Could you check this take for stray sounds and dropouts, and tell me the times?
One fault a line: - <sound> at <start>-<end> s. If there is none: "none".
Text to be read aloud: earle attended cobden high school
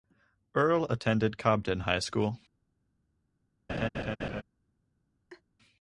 - laugh at 3.7-4.4 s
- laugh at 5.3-5.4 s